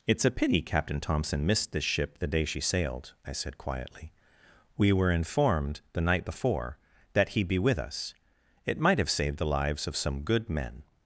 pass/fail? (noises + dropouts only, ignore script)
pass